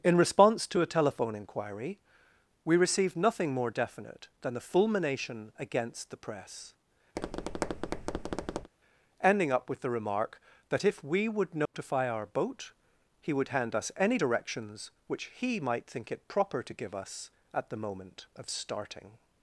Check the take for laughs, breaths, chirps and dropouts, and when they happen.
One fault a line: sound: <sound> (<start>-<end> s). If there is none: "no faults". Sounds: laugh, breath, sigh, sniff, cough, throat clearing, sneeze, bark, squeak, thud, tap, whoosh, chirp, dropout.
sound: tap (7.1-8.7 s)
sound: dropout (11.7-11.7 s)